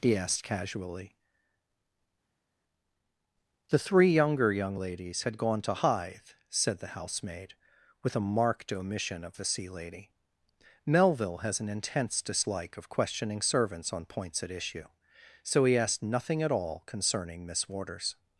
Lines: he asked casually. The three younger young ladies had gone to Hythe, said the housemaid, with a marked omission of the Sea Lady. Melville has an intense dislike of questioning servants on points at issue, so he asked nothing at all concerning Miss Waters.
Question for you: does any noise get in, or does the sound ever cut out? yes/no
no